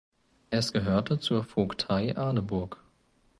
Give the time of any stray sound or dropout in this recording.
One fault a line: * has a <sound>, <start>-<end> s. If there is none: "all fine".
all fine